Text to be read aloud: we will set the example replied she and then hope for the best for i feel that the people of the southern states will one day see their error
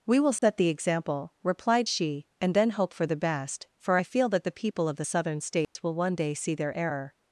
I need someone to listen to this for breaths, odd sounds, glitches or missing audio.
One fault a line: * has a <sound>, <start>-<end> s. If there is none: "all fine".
* has a dropout, 0.4-0.4 s
* has a dropout, 5.6-5.8 s